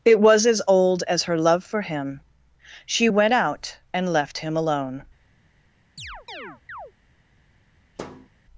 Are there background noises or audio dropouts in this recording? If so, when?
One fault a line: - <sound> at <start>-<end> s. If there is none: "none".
- chirp at 6.0-6.9 s
- thud at 8.0-8.3 s